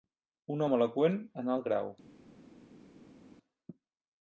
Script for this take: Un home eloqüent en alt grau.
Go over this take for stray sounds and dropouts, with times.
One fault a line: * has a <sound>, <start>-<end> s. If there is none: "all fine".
all fine